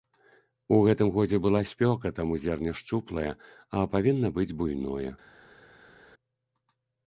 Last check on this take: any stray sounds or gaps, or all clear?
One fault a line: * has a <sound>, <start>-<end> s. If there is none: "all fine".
all fine